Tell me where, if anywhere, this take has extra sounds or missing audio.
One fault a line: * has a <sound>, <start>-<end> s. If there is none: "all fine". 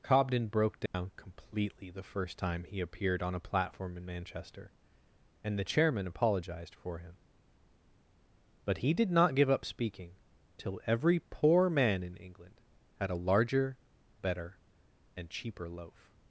* has a dropout, 0.9-0.9 s